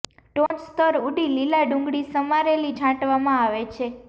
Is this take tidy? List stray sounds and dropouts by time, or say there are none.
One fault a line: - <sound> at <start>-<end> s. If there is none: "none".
- dropout at 0.5-0.5 s